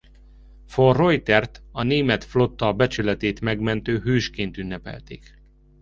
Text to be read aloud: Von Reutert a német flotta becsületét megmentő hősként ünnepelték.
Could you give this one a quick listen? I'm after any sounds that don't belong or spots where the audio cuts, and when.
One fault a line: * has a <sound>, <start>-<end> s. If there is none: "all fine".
all fine